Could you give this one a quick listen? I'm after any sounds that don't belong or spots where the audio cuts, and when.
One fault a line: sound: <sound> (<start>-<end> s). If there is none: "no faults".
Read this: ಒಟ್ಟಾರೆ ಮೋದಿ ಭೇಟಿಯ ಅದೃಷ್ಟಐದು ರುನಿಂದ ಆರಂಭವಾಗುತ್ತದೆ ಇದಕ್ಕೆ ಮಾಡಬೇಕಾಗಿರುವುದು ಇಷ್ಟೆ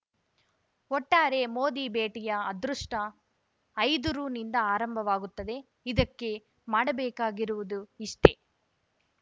no faults